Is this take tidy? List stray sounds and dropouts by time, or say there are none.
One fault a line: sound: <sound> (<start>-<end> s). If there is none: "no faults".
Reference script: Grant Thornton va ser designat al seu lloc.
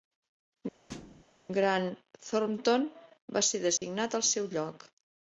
sound: thud (0.9-1.2 s)
sound: dropout (3.8-3.8 s)